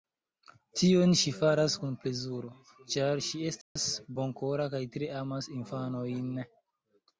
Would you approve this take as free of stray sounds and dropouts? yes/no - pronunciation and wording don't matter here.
no